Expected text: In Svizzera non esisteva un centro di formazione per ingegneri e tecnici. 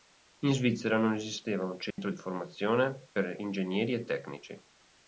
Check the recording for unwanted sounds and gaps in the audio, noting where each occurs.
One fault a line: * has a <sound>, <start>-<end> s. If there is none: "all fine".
* has a dropout, 1.9-2.0 s